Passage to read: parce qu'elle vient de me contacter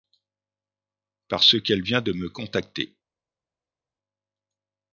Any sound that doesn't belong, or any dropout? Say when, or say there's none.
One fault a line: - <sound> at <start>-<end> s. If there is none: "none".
none